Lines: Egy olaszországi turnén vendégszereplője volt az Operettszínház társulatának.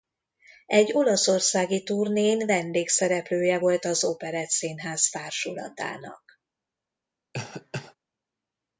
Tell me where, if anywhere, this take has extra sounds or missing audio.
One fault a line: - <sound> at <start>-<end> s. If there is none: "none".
- cough at 7.3-8.0 s